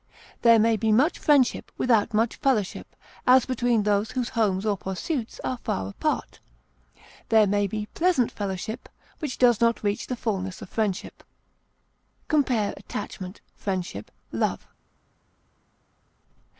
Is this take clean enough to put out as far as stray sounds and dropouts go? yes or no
yes